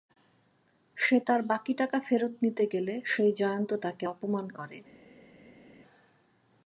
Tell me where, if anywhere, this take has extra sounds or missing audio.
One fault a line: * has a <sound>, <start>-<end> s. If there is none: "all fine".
all fine